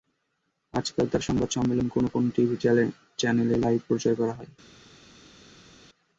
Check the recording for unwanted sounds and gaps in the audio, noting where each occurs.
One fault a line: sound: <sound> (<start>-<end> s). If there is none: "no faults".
no faults